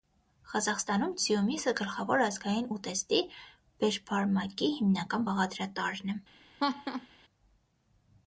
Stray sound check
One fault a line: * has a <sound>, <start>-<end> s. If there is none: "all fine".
* has a laugh, 6.6-7.1 s